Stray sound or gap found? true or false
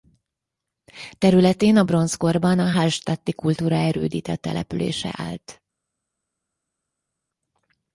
false